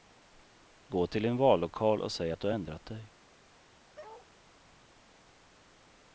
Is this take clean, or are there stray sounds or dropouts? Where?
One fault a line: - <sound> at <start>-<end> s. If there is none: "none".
- bark at 4.0-4.3 s